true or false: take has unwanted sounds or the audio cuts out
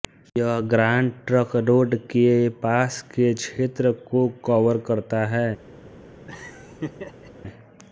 true